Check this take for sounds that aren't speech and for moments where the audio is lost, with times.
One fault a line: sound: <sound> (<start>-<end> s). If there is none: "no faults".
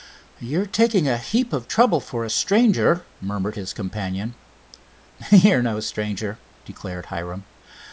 no faults